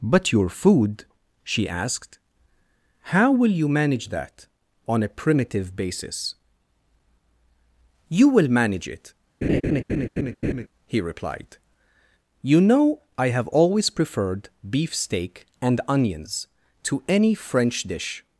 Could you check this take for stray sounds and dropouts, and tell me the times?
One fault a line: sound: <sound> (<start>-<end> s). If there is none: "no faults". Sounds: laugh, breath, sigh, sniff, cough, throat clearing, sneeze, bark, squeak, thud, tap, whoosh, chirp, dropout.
sound: laugh (9.4-10.7 s)